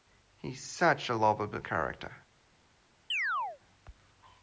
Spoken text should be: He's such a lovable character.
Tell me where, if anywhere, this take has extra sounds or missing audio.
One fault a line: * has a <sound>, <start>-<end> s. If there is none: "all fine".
* has a chirp, 3.1-3.6 s